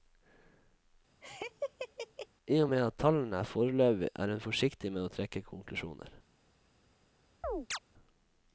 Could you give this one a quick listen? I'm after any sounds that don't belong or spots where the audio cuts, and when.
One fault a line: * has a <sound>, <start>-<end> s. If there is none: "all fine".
* has a laugh, 1.2-2.3 s
* has a chirp, 7.4-7.8 s